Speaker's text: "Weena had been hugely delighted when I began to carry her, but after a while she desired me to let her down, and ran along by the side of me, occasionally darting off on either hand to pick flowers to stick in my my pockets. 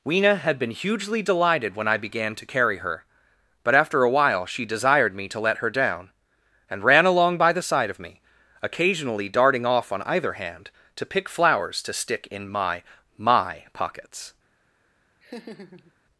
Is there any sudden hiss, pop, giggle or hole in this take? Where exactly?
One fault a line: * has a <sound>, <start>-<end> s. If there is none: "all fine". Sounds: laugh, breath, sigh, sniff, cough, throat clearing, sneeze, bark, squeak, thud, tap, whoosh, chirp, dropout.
* has a laugh, 15.2-15.9 s